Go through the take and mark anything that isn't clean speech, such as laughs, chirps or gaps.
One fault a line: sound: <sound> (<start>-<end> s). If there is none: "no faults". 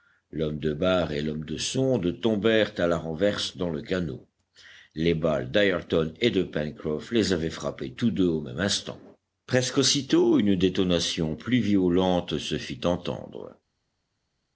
no faults